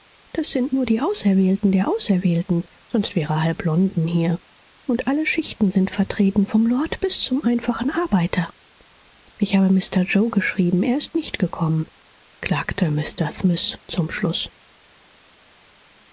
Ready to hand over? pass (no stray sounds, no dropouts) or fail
pass